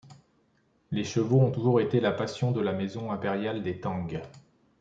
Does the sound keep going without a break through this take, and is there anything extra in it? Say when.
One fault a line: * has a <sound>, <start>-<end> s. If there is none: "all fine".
all fine